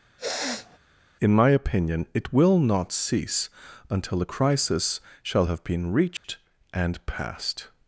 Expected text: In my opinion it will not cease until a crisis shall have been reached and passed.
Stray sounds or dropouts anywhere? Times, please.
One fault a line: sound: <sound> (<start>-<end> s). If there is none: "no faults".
sound: sniff (0.2-0.8 s)
sound: dropout (6.2-6.2 s)